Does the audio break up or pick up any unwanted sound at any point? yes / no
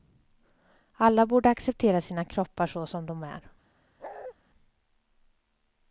yes